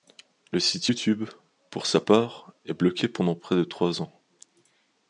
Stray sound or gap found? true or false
false